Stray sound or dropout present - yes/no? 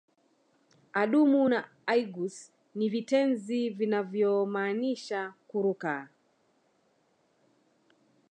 no